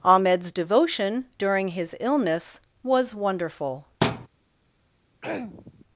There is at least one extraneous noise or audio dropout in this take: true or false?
true